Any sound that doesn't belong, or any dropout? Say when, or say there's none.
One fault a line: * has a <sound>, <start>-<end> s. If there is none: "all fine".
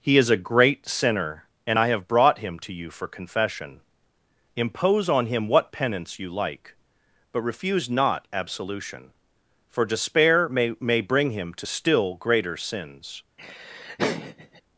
* has a laugh, 13.4-14.6 s